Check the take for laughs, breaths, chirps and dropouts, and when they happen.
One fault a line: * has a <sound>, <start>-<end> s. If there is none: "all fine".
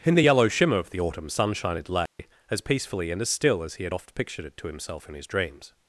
* has a dropout, 2.1-2.2 s